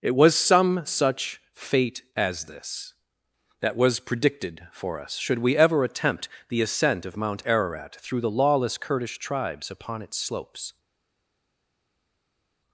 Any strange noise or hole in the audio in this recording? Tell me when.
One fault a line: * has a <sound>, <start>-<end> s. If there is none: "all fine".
all fine